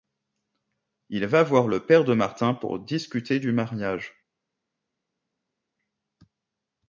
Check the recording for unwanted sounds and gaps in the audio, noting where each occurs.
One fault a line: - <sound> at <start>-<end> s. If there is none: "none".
none